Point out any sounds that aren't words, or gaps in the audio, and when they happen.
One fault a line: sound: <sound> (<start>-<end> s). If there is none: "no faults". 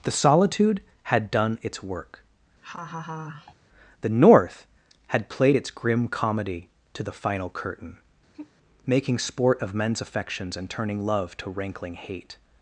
sound: laugh (2.6-3.5 s)
sound: sigh (8.3-8.5 s)